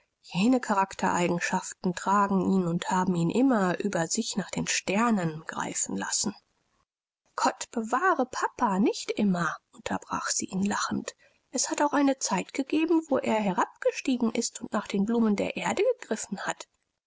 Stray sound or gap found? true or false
false